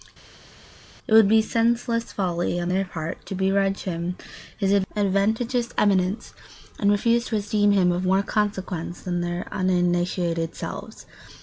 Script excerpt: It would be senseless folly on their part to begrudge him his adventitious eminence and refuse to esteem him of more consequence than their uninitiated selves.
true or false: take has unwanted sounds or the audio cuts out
false